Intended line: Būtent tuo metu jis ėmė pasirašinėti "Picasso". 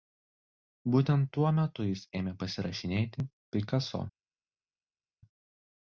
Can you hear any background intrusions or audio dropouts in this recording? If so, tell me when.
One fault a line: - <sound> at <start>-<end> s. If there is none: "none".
none